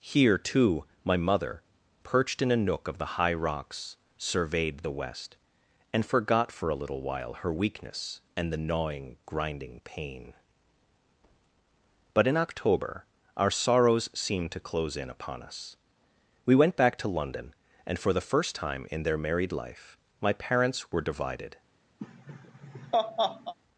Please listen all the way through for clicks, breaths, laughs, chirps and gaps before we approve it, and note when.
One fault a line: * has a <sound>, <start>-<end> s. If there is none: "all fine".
* has a laugh, 22.0-23.5 s